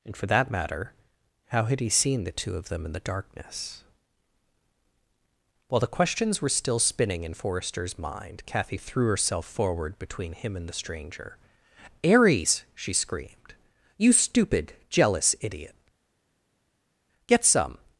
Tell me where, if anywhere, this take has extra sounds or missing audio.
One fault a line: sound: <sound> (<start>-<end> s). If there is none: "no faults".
no faults